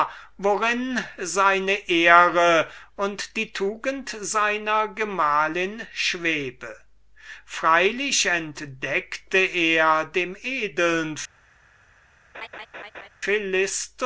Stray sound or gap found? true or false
true